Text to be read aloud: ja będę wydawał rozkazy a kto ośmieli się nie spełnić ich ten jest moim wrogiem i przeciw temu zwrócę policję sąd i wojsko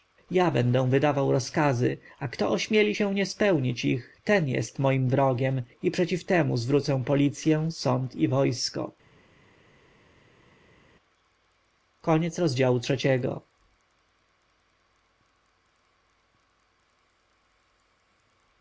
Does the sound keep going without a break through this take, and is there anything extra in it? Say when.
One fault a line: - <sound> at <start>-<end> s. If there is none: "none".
none